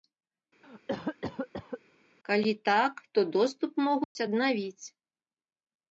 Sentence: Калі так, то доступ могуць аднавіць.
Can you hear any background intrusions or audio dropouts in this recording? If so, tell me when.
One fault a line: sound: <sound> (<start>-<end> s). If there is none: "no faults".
sound: cough (0.6-1.8 s)
sound: dropout (4.0-4.2 s)